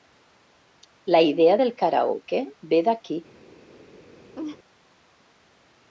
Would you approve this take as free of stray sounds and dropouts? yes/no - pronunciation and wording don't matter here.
no